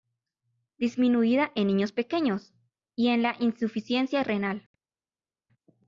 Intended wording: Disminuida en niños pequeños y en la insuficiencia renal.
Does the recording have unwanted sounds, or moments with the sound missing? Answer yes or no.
no